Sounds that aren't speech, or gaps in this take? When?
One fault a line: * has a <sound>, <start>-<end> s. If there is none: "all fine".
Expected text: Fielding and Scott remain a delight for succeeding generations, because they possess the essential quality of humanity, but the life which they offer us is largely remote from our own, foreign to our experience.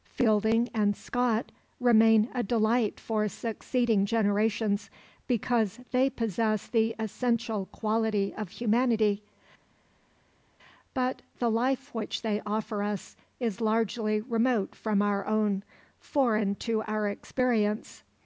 all fine